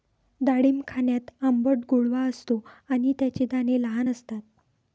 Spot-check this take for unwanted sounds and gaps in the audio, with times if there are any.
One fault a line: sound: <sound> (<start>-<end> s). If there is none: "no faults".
no faults